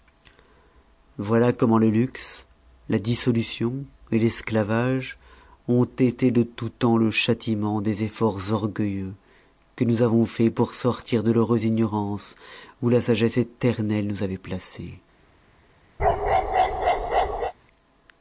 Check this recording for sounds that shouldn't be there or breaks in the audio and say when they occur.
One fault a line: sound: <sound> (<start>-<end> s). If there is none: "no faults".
sound: bark (16.0-17.5 s)